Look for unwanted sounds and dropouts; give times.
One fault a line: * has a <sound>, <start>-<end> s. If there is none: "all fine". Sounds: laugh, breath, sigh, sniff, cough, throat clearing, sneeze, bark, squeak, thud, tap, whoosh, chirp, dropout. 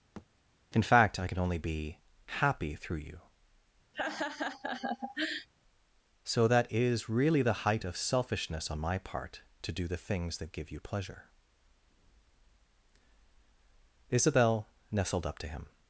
* has a thud, 0.2-0.3 s
* has a laugh, 3.9-5.5 s